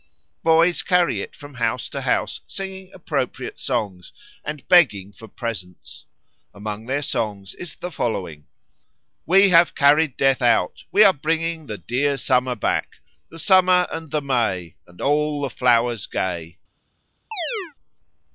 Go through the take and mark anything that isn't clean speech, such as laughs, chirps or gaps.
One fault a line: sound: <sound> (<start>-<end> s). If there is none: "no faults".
sound: chirp (17.3-17.7 s)